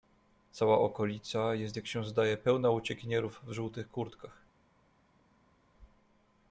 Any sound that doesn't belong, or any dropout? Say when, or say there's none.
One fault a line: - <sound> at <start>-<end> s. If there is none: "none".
none